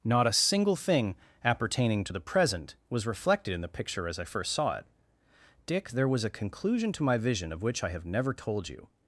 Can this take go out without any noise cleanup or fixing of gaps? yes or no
yes